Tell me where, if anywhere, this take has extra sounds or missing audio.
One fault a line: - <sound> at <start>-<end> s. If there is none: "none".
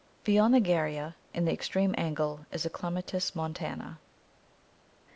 none